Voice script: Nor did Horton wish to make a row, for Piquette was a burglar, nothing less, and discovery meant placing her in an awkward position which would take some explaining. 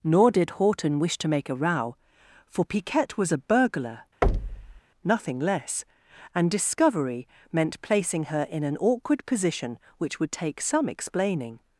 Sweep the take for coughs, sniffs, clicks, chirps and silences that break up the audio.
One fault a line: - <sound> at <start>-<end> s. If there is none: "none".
- thud at 4.2-4.8 s